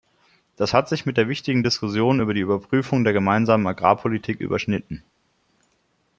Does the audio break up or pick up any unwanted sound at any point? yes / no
no